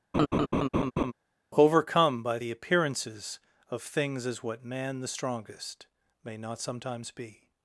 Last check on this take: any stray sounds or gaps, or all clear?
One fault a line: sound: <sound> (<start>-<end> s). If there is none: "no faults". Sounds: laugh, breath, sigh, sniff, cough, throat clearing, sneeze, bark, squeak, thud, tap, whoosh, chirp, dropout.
sound: laugh (0.1-1.1 s)